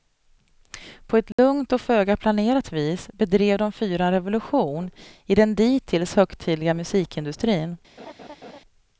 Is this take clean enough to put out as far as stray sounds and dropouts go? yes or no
no